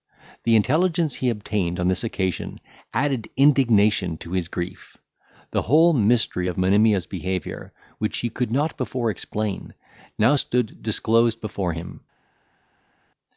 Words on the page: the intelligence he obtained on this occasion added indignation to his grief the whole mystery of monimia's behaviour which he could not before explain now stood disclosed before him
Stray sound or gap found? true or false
false